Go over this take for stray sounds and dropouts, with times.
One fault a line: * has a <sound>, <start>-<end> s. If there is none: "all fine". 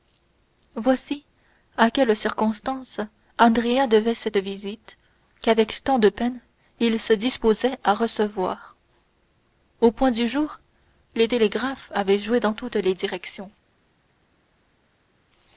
all fine